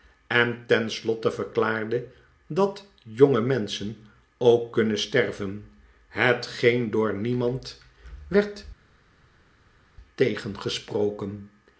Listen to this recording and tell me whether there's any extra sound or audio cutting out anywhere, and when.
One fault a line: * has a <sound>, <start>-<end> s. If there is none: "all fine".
all fine